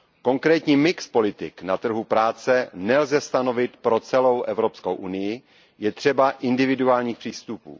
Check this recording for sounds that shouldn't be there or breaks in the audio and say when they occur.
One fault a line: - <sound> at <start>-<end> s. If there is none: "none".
none